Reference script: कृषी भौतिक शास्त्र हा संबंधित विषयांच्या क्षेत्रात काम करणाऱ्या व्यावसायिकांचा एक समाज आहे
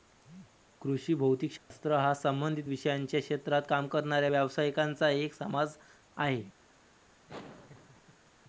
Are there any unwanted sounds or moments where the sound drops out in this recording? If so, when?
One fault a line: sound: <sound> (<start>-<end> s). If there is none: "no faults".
sound: dropout (1.6-1.7 s)
sound: laugh (7.3-8.3 s)